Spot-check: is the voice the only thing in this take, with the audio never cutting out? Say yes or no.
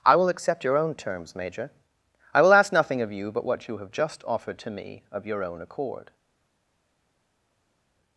yes